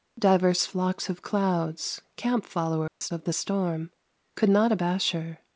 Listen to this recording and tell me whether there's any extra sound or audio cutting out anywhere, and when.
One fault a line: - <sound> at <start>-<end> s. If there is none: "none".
- dropout at 2.9-3.0 s